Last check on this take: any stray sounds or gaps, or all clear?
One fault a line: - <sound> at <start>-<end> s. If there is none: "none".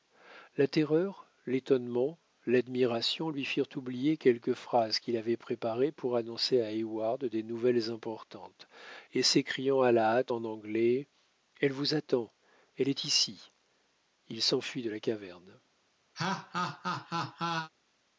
- laugh at 16.1-17.7 s